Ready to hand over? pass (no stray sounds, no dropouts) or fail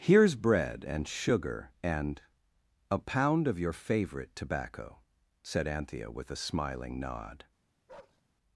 fail